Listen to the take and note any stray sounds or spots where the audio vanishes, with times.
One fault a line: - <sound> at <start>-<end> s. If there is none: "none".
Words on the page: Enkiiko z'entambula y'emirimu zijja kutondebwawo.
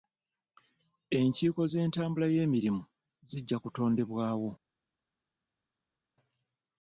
none